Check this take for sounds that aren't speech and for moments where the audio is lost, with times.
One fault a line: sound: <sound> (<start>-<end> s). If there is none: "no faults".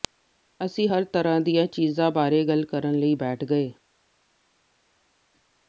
no faults